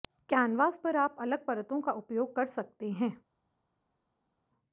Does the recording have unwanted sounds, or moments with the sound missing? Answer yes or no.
no